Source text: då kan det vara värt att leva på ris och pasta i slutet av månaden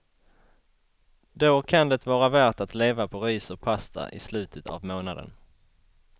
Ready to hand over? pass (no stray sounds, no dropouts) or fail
pass